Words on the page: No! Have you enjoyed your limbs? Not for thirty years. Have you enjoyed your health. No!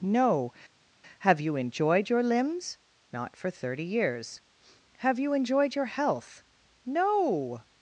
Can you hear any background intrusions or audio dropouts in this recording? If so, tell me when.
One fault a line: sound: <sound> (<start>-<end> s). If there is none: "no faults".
no faults